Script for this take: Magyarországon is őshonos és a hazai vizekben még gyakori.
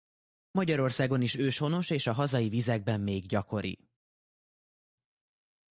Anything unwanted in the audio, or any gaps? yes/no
no